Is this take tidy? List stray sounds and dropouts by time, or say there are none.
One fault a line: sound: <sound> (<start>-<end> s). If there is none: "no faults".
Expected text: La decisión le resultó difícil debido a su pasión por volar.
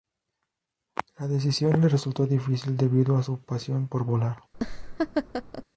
sound: laugh (4.5-5.6 s)